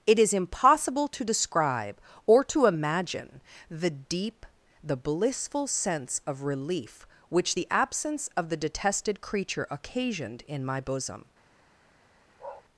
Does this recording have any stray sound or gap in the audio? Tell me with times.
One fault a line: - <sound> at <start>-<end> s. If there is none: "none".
- bark at 12.4-12.6 s